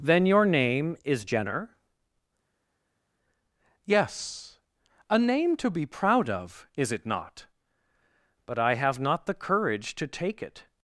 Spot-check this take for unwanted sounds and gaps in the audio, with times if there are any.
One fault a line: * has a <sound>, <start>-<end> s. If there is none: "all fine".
all fine